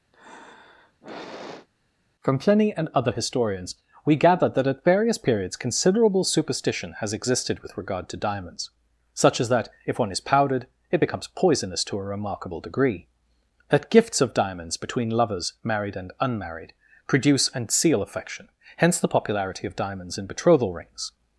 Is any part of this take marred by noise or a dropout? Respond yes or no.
yes